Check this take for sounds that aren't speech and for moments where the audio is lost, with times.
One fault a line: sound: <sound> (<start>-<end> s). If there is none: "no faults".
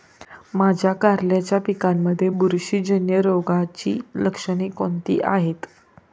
no faults